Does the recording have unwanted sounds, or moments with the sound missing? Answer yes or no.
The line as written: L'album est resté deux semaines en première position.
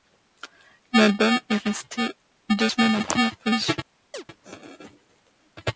yes